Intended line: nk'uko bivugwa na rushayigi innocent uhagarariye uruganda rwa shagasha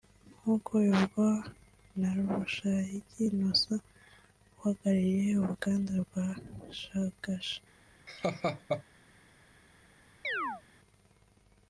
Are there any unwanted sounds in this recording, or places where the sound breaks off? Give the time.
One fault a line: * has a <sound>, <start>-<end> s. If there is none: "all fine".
* has a laugh, 8.1-8.8 s
* has a chirp, 10.2-10.6 s